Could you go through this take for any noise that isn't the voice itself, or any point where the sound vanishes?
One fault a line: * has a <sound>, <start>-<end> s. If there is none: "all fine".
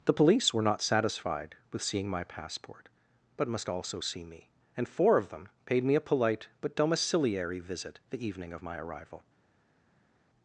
all fine